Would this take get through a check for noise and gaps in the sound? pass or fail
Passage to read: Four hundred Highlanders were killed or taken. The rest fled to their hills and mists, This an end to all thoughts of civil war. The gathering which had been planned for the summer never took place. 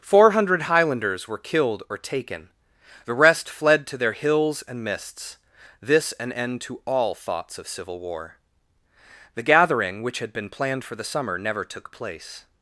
pass